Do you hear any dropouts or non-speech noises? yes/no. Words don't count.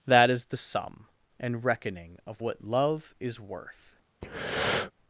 yes